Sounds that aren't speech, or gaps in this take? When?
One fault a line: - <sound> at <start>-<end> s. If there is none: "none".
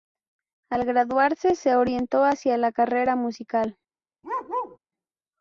- bark at 4.2-4.8 s